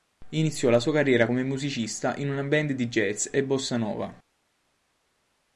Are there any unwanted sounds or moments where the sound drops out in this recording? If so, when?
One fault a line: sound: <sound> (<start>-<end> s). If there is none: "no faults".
no faults